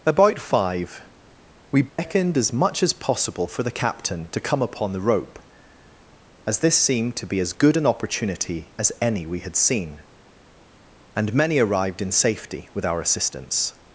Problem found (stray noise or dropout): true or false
true